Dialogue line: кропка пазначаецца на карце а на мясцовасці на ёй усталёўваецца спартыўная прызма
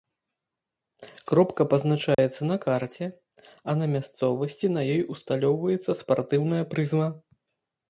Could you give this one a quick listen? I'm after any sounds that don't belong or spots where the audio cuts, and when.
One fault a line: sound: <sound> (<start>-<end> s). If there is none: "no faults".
sound: dropout (2.1-2.2 s)